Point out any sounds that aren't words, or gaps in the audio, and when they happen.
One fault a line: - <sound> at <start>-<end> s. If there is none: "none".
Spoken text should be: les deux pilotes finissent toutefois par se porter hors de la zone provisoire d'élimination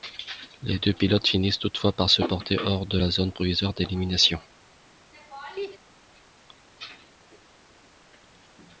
- laugh at 5.1-5.8 s